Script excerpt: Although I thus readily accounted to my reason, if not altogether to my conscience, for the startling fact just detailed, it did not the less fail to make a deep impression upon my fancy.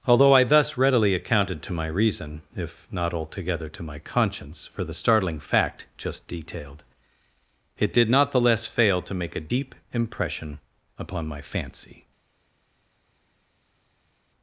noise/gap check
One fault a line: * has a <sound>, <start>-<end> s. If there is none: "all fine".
all fine